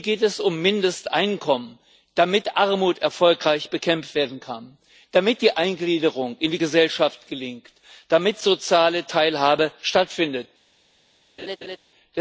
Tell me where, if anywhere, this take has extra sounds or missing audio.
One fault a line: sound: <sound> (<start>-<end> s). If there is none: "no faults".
sound: laugh (11.4-11.8 s)